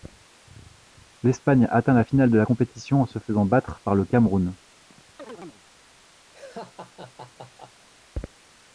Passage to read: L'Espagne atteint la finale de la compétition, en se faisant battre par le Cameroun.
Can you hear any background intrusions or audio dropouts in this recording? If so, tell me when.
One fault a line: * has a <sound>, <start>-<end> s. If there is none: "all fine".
* has a chirp, 4.9-5.6 s
* has a laugh, 6.3-7.9 s